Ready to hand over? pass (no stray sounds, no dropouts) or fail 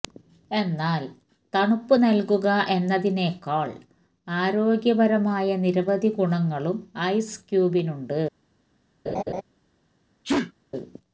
fail